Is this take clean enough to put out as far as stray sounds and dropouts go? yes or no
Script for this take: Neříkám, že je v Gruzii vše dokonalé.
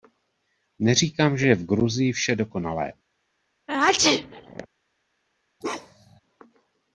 no